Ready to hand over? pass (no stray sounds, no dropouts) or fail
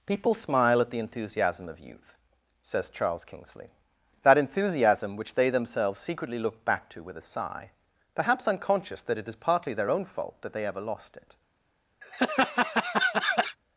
fail